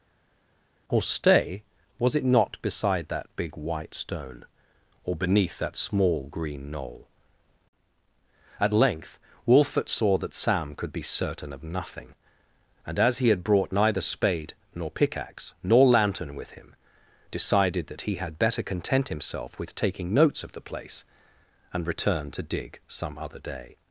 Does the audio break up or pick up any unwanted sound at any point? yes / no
no